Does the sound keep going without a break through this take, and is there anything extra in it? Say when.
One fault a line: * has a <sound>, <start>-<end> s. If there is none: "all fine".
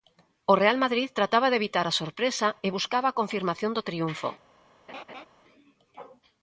* has a laugh, 4.9-5.3 s